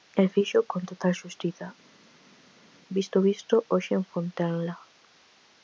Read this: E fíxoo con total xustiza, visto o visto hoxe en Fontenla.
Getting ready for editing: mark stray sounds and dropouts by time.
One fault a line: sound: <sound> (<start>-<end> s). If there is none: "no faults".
no faults